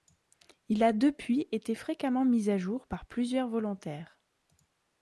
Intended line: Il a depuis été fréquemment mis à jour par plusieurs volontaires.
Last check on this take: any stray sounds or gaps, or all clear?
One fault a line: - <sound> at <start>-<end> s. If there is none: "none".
none